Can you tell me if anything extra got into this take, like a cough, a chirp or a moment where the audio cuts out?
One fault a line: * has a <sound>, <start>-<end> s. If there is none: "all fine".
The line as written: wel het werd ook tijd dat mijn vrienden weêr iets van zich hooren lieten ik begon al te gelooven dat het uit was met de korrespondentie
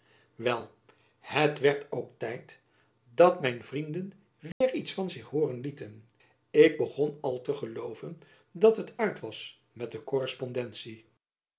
* has a dropout, 4.5-4.6 s